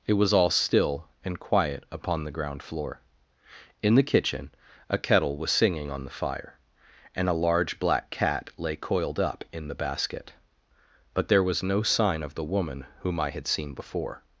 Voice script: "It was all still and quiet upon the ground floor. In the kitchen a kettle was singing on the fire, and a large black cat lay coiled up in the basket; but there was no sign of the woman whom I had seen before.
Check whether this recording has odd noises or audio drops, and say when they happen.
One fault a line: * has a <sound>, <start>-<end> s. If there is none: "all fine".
all fine